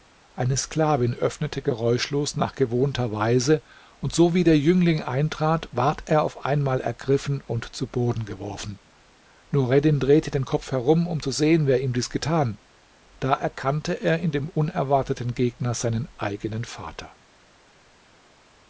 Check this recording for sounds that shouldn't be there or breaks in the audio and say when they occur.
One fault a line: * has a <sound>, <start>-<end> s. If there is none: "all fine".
all fine